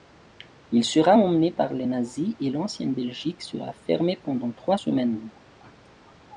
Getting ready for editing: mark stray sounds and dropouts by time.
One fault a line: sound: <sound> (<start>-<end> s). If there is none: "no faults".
no faults